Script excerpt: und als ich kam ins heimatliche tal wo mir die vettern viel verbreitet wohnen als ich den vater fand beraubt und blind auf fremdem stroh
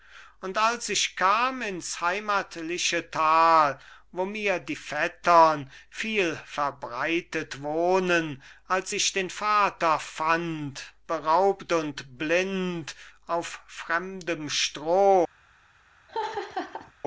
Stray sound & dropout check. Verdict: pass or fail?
fail